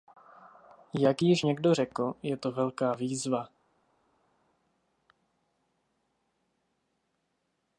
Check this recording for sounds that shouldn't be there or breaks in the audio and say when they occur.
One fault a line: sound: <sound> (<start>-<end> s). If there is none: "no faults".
no faults